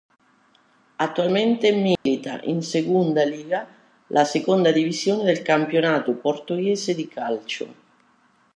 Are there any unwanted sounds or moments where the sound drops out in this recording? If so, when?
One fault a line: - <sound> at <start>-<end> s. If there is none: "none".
- dropout at 2.0-2.1 s